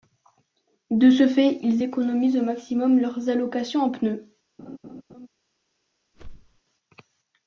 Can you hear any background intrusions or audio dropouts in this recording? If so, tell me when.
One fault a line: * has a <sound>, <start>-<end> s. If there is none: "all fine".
* has a laugh, 4.6-5.3 s
* has a whoosh, 6.1-6.6 s